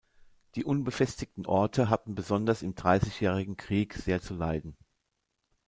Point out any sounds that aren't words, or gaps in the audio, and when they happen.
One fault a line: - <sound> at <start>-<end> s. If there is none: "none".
none